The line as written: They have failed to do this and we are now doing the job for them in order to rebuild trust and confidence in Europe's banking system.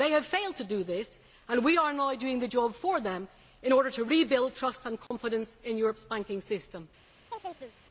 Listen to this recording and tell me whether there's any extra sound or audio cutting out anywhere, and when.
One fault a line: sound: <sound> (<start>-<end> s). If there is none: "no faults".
sound: dropout (5.1-5.1 s)
sound: chirp (7.3-7.7 s)